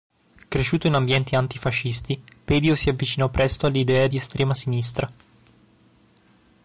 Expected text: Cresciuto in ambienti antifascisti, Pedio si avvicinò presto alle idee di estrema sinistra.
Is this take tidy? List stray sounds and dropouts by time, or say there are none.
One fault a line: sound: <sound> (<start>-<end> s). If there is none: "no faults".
no faults